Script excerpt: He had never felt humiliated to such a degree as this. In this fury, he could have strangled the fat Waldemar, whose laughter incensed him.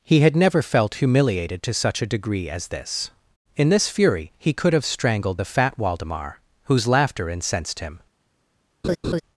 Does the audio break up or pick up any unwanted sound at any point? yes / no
yes